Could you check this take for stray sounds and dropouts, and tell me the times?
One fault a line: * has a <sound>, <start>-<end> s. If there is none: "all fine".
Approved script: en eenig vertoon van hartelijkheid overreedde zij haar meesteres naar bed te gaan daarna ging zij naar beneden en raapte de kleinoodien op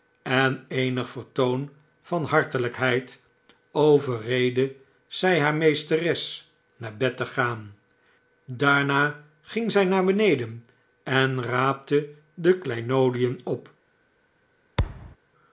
* has a thud, 14.8-15.2 s